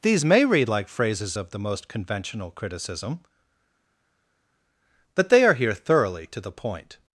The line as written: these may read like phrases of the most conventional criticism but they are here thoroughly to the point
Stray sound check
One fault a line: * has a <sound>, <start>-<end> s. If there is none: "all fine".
all fine